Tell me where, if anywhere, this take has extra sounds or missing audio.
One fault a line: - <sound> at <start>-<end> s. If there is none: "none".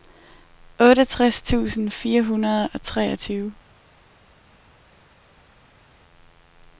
none